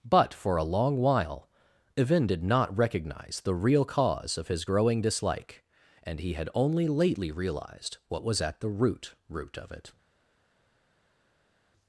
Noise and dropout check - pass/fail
pass